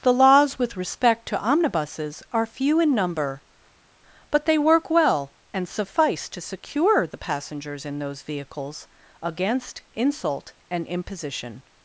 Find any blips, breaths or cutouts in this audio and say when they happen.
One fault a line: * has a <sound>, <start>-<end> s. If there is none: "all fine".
all fine